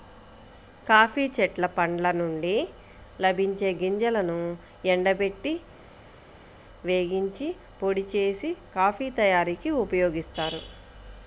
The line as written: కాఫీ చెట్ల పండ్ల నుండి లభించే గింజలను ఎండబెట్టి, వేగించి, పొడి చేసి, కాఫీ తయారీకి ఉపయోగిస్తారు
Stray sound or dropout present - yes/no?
no